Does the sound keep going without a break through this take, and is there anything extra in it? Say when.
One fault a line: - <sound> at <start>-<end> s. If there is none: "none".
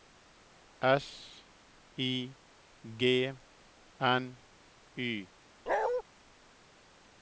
- bark at 5.7-6.0 s